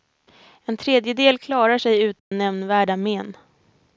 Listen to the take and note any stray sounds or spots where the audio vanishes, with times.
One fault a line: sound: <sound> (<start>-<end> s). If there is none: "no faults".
sound: dropout (2.2-2.3 s)